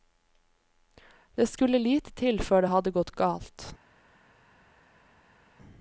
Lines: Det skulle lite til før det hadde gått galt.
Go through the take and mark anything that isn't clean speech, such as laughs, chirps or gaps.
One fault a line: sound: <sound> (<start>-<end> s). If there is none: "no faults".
no faults